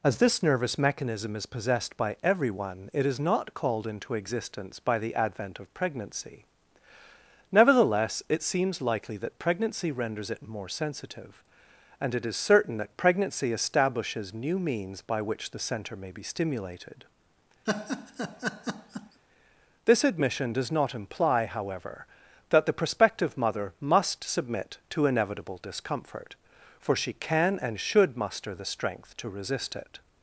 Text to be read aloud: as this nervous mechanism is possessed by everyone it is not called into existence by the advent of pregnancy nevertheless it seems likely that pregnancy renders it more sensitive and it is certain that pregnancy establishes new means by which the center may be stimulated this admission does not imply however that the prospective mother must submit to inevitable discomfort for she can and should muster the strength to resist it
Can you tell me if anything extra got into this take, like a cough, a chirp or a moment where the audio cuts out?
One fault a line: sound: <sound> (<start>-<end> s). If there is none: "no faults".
sound: laugh (17.7-19.2 s)